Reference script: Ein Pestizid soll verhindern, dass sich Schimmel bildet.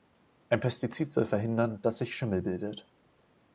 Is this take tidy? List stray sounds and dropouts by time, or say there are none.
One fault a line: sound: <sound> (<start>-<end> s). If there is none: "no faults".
no faults